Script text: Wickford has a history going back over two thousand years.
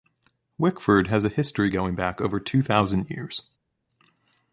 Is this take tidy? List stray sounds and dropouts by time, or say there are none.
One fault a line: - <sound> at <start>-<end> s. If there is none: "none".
none